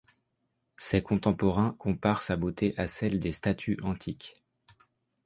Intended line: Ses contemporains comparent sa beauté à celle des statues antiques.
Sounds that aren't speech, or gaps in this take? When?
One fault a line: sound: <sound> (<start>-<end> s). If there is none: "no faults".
no faults